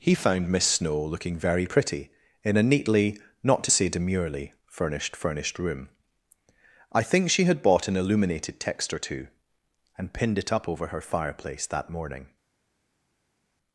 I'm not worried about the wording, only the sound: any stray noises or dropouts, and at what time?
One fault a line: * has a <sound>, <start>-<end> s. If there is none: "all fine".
all fine